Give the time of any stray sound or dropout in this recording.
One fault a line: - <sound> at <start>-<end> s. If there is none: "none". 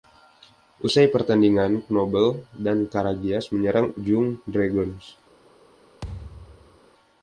- thud at 6.0-6.8 s